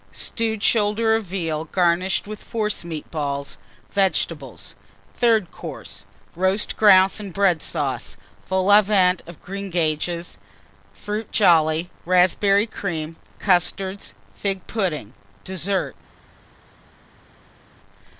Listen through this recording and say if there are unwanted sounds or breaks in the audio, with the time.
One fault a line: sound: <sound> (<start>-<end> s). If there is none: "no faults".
no faults